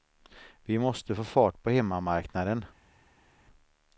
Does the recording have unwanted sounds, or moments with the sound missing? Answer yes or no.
no